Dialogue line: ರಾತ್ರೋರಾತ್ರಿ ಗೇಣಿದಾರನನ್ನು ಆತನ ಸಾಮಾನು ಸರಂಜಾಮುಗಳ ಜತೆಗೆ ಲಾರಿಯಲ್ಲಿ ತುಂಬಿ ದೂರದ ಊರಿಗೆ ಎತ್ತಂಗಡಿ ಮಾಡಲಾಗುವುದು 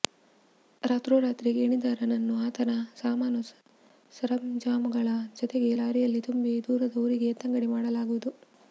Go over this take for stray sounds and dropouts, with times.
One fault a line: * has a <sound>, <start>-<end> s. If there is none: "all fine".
all fine